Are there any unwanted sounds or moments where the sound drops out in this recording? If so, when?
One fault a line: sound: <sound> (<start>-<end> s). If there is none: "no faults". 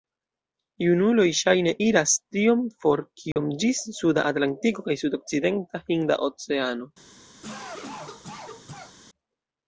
sound: dropout (3.3-3.4 s)
sound: cough (7.4-8.9 s)